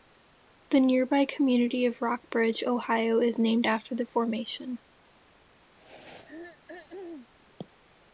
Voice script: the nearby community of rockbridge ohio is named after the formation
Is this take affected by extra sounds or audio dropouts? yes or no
yes